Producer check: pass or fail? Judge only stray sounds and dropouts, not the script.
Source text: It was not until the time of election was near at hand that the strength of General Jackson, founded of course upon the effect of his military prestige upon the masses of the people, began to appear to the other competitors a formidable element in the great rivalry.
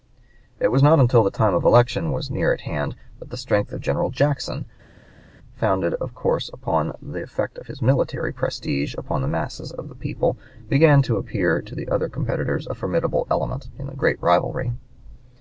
pass